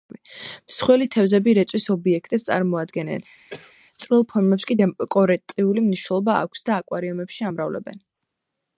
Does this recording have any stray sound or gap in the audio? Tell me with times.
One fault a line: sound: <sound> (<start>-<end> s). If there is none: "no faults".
sound: cough (3.5-3.7 s)